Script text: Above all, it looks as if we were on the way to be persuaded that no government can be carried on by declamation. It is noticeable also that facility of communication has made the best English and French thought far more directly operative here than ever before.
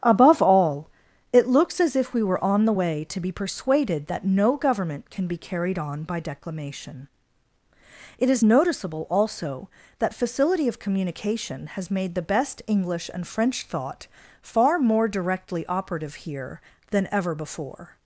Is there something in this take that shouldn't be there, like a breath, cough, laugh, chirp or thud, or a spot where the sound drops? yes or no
no